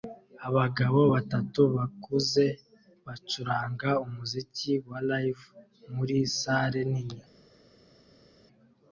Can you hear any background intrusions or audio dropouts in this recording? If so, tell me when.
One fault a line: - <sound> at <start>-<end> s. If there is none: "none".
none